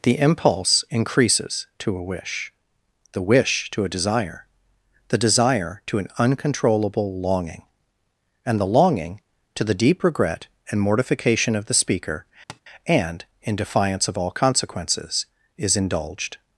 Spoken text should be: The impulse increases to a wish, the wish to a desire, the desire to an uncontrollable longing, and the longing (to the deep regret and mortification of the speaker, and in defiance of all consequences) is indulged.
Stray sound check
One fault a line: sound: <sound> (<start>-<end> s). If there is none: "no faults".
sound: tap (12.5-12.6 s)